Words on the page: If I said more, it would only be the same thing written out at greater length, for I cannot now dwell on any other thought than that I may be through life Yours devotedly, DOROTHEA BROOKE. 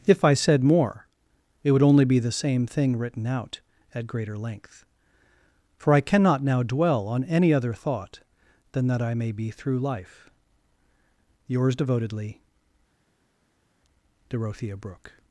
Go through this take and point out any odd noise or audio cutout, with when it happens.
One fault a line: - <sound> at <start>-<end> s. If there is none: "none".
none